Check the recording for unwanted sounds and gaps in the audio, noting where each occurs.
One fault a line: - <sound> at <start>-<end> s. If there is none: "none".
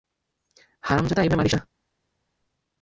none